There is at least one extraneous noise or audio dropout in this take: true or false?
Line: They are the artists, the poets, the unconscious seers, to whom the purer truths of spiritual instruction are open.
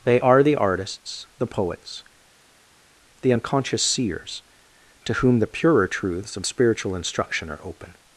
false